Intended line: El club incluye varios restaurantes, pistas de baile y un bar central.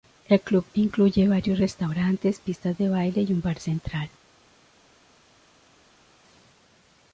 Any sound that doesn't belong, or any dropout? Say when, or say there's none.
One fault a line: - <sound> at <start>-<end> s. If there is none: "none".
none